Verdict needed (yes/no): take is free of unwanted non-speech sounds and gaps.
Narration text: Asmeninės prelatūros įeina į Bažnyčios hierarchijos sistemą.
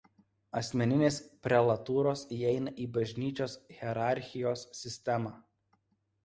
yes